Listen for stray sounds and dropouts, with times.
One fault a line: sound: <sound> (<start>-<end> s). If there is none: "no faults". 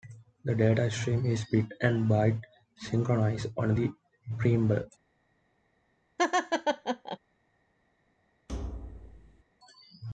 sound: laugh (6.2-7.2 s)
sound: thud (8.5-9.4 s)